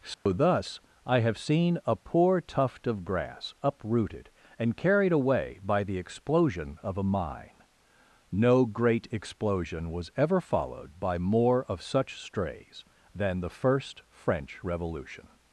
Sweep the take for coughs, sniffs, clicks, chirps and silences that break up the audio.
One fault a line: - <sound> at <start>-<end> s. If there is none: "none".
- dropout at 0.1-0.3 s